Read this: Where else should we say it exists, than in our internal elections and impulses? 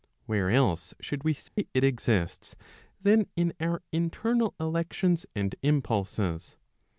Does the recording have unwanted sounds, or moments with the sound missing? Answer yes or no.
yes